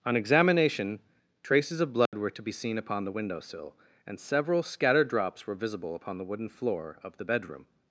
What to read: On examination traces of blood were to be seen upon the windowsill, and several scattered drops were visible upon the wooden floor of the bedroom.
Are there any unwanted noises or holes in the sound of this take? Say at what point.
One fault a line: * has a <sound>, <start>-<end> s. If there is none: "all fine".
* has a dropout, 2.1-2.1 s